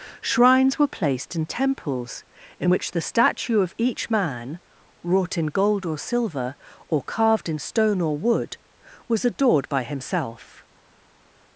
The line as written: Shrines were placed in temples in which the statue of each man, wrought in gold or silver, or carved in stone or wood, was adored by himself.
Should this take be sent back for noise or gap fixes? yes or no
no